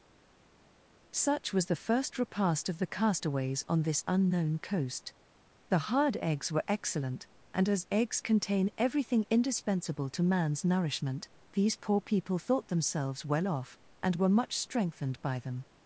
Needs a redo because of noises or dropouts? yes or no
no